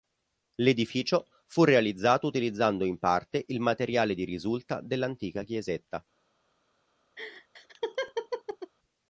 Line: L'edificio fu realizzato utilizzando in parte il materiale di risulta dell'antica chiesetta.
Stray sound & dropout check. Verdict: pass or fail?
fail